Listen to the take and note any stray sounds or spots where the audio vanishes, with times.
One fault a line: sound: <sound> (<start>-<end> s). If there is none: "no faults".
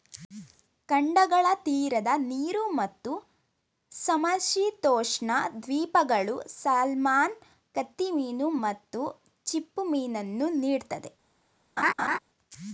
sound: laugh (11.8-12.2 s)